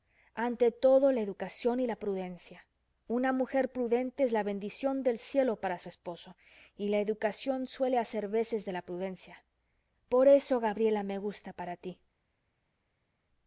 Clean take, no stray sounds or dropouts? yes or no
yes